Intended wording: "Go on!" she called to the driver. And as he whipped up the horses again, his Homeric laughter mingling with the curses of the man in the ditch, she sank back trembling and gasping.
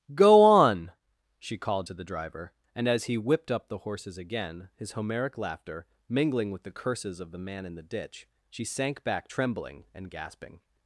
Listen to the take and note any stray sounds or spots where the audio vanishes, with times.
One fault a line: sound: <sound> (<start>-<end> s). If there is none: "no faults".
no faults